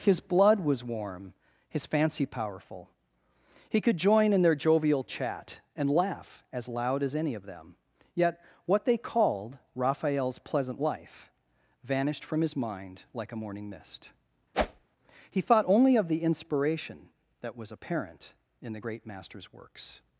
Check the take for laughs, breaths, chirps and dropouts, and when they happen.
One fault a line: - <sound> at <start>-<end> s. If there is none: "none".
- whoosh at 14.5-14.9 s